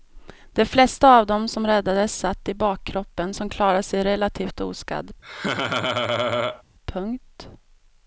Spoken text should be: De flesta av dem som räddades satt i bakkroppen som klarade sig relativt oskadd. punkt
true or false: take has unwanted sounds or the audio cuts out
true